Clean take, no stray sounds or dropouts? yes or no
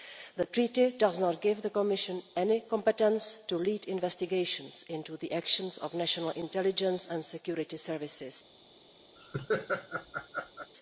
no